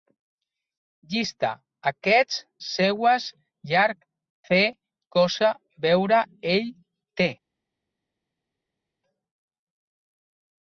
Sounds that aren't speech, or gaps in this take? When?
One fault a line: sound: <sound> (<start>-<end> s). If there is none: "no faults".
no faults